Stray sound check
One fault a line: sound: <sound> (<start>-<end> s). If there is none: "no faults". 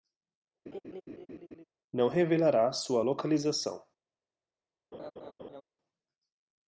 sound: laugh (0.7-1.6 s)
sound: laugh (4.9-5.6 s)